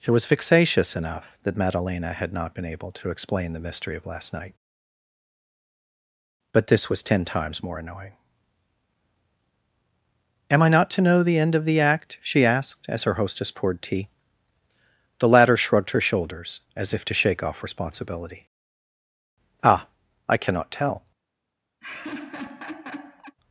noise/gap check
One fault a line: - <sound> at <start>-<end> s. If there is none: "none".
- laugh at 21.8-23.4 s